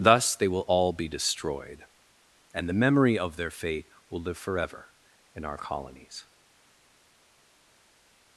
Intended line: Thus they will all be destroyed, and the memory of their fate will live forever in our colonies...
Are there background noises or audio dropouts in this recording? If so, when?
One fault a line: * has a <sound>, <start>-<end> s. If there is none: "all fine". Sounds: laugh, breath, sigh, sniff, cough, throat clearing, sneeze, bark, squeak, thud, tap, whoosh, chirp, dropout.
all fine